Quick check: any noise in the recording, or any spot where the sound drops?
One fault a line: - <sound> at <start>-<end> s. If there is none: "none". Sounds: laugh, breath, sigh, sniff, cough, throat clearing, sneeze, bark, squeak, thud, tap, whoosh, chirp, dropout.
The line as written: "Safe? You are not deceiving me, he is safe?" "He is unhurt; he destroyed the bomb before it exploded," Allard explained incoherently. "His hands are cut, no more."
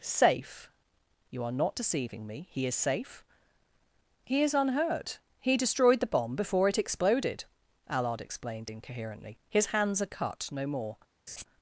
- laugh at 11.3-11.4 s